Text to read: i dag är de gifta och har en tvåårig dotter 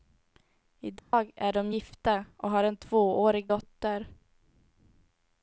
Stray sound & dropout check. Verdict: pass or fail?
fail